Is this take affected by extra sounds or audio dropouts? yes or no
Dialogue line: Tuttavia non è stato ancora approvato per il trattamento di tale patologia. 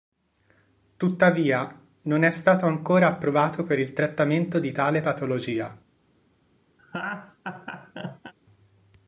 yes